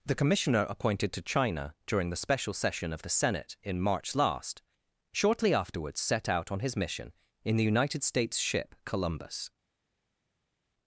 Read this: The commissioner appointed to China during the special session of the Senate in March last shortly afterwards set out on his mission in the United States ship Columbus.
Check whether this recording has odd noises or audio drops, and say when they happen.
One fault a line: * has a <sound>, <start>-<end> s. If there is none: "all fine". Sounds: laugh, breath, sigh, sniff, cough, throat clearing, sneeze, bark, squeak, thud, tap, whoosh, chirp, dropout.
all fine